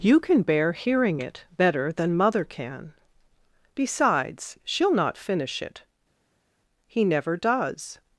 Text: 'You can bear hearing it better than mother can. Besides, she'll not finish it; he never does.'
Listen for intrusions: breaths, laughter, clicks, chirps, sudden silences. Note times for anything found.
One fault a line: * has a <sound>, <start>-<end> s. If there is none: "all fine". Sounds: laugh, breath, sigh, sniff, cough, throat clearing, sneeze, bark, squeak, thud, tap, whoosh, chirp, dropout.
all fine